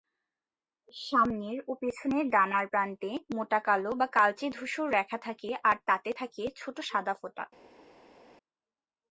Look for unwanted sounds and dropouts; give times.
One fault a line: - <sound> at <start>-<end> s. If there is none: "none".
none